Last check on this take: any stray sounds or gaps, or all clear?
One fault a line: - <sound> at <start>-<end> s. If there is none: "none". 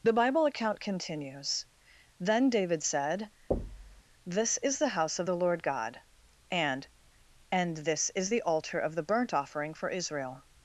- thud at 3.5-4.0 s